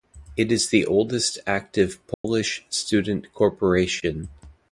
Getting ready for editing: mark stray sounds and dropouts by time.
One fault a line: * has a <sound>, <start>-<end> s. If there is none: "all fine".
* has a dropout, 2.1-2.2 s